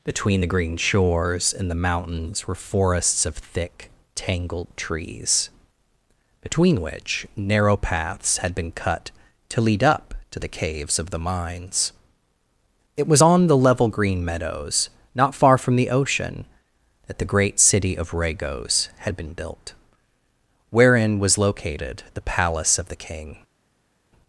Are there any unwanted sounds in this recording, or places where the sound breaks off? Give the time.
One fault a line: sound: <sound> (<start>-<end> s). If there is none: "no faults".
no faults